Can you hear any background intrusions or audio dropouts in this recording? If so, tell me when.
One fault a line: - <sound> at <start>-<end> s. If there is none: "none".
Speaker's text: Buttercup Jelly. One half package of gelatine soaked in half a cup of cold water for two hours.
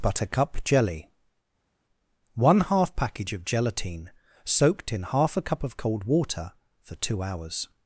none